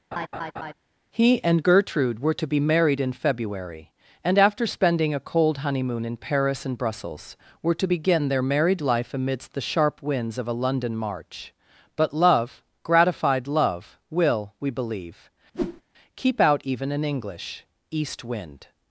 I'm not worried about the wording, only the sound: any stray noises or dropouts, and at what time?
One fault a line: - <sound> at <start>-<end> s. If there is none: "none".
- laugh at 0.1-0.7 s
- whoosh at 15.5-15.8 s